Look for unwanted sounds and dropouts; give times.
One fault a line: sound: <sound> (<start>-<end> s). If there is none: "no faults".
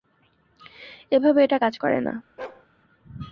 sound: bark (2.4-2.7 s)